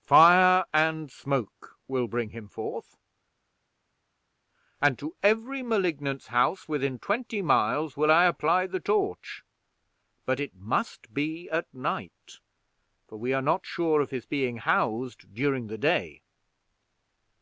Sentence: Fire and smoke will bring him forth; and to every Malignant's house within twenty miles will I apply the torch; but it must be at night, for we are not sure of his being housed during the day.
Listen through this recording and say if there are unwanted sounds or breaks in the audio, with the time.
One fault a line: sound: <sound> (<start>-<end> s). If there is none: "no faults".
no faults